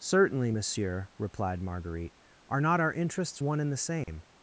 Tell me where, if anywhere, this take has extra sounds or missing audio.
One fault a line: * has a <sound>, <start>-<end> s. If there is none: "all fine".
* has a dropout, 4.0-4.1 s